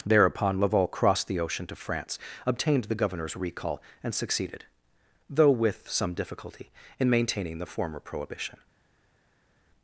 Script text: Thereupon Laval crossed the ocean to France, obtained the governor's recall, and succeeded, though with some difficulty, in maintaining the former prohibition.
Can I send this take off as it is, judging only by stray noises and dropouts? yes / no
yes